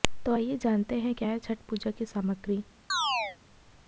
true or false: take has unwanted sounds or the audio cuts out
true